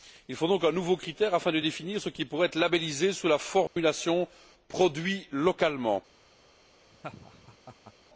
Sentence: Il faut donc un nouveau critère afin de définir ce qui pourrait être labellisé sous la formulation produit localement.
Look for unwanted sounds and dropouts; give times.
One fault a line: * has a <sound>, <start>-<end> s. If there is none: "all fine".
* has a dropout, 3.7-3.8 s
* has a laugh, 6.9-7.9 s